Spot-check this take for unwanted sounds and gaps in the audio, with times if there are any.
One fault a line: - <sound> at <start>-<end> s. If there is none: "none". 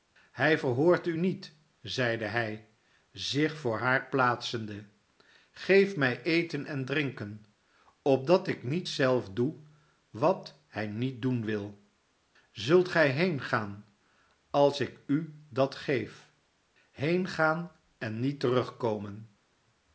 none